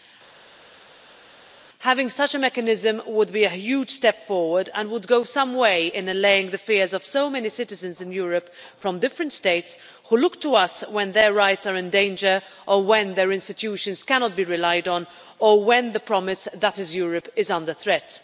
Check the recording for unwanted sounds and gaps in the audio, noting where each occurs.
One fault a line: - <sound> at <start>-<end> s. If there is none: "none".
none